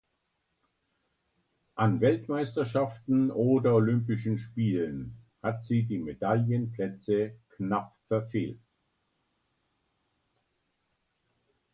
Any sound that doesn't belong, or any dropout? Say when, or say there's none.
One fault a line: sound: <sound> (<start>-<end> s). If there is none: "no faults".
no faults